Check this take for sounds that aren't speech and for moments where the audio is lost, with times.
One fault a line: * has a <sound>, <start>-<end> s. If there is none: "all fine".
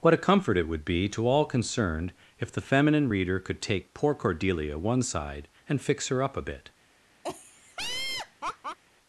* has a laugh, 7.2-8.8 s